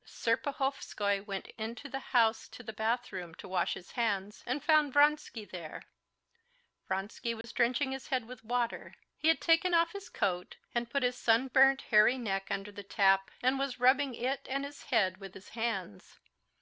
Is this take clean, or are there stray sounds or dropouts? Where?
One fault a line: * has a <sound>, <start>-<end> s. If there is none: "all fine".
* has a dropout, 7.4-7.4 s